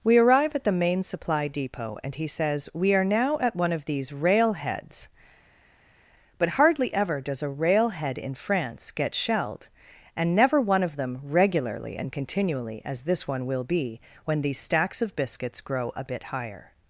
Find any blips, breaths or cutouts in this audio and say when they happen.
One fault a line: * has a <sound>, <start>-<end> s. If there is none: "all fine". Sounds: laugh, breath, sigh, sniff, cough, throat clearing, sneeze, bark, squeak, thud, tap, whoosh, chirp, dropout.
all fine